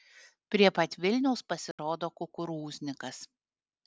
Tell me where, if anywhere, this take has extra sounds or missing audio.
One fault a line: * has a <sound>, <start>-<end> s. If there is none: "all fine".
* has a dropout, 1.7-1.8 s